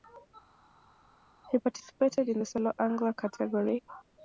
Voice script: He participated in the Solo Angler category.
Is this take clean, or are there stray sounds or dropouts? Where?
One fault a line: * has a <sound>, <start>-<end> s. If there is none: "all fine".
all fine